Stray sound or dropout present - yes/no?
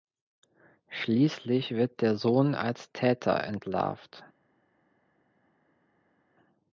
no